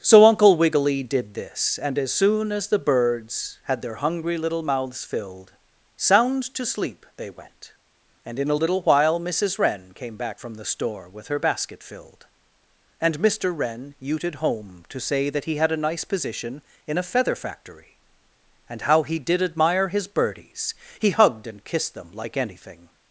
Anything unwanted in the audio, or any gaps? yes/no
no